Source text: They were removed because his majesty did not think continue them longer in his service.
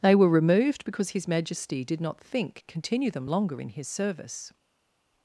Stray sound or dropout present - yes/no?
no